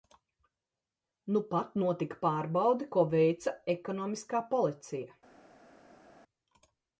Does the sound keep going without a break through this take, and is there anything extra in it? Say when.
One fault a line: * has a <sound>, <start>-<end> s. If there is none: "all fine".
all fine